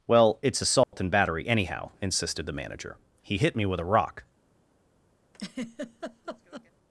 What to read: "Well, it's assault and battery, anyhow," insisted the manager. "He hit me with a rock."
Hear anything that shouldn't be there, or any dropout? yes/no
yes